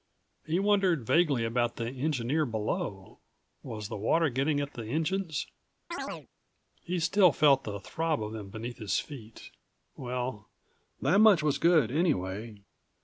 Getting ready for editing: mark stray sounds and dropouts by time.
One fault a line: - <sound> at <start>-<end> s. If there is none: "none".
- chirp at 5.9-6.3 s